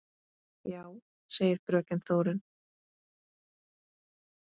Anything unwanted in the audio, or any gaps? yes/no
no